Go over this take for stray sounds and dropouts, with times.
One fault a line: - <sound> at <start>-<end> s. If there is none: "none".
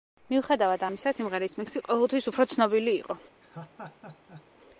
- laugh at 3.4-4.5 s